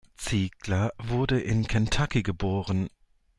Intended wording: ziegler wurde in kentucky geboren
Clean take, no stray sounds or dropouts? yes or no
yes